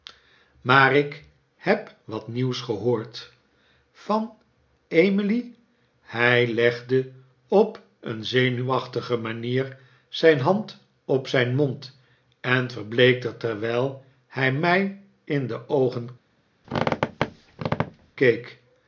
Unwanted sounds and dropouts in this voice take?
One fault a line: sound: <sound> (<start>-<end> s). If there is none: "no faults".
sound: squeak (16.6-18.2 s)